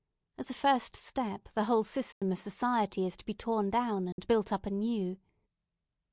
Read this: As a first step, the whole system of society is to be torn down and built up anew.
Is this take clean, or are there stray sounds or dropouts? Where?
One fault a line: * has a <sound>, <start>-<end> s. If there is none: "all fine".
* has a dropout, 2.1-2.2 s
* has a dropout, 4.1-4.2 s